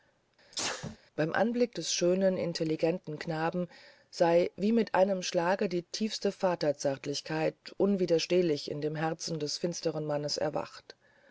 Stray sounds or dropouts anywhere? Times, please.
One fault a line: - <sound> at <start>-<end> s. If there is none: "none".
- sneeze at 0.5-1.0 s